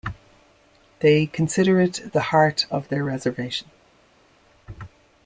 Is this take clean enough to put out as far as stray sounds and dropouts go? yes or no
yes